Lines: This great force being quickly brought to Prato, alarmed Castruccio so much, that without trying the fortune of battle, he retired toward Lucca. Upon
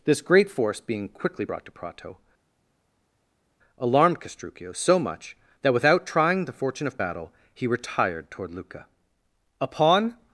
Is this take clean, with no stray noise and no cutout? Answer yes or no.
yes